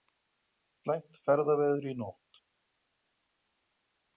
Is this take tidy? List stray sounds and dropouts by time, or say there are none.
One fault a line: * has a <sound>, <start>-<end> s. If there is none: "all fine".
all fine